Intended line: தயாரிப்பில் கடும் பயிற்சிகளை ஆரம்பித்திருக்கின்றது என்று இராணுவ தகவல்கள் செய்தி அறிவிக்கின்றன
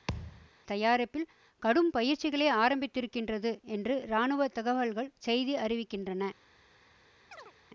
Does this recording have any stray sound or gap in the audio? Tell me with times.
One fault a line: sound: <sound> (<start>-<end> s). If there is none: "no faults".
sound: thud (0.1-0.5 s)
sound: chirp (7.3-7.5 s)